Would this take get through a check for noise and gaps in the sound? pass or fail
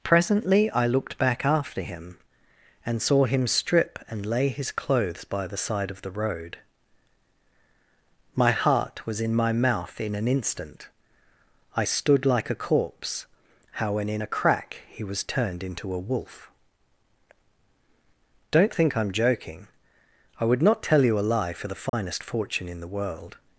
fail